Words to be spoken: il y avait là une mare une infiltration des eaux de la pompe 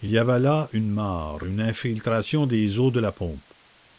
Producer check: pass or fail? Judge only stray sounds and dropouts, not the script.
pass